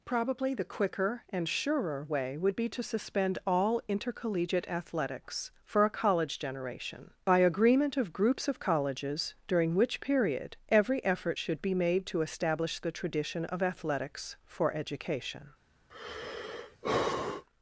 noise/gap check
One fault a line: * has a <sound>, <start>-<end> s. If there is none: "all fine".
* has a sigh, 15.9-17.4 s